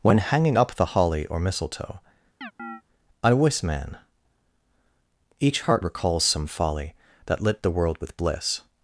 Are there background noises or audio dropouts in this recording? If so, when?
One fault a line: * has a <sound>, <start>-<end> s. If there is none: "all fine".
* has a chirp, 2.4-2.8 s